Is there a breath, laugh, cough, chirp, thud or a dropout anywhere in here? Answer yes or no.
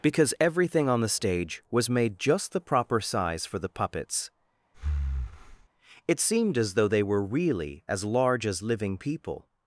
yes